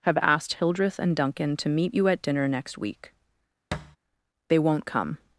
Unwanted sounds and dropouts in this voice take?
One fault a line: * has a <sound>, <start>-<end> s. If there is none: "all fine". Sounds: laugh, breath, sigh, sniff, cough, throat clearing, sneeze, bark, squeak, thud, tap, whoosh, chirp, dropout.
* has a thud, 3.7-4.0 s